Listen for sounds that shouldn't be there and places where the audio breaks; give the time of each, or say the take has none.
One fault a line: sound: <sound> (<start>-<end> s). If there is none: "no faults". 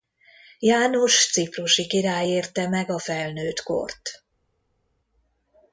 no faults